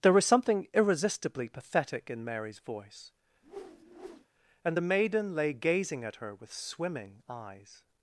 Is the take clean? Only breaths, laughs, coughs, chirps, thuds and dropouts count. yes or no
no